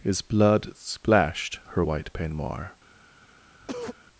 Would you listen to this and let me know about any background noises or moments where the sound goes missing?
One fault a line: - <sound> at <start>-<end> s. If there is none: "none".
- cough at 3.6-4.0 s